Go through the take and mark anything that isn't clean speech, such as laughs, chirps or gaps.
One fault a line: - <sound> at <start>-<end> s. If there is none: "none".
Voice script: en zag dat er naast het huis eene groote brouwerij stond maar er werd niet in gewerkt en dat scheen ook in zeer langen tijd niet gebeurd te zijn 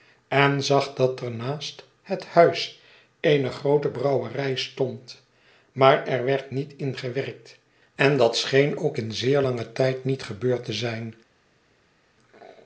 none